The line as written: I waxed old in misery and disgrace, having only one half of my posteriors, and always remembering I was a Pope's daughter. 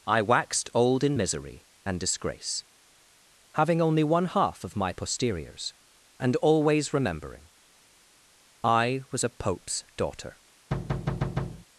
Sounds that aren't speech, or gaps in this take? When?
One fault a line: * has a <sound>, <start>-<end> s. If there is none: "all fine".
* has a thud, 10.7-11.7 s